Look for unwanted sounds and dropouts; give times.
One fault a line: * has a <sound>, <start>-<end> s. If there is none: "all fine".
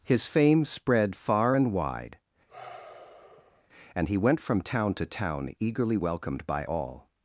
* has a sigh, 2.5-3.7 s